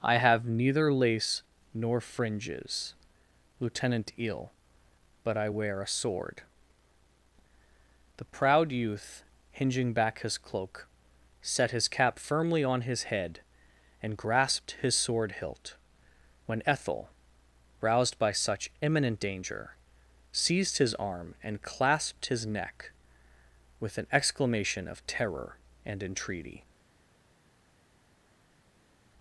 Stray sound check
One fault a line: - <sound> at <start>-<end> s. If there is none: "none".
none